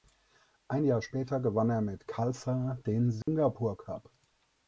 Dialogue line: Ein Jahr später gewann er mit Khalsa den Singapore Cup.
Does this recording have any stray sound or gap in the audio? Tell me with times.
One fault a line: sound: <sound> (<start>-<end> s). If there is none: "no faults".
sound: dropout (3.2-3.3 s)